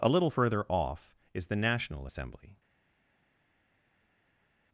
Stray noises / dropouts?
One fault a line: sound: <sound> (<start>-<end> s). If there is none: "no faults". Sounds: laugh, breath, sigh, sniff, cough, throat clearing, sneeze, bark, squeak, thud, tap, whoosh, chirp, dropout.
no faults